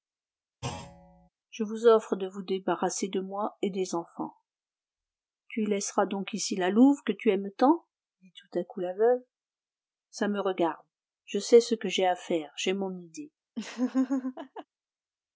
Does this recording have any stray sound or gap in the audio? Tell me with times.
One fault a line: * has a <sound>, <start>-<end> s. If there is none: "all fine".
* has a thud, 0.6-1.3 s
* has a laugh, 13.6-14.7 s